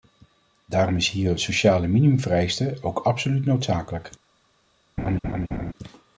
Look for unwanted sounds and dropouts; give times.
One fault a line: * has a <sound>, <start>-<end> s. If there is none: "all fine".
* has a laugh, 5.0-5.7 s